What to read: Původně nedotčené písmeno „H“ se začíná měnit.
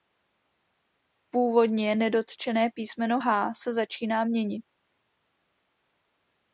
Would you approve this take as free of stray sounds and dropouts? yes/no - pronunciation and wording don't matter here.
yes